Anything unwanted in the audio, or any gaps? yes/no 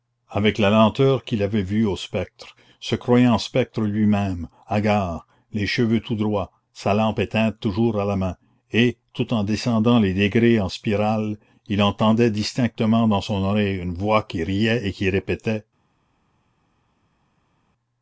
no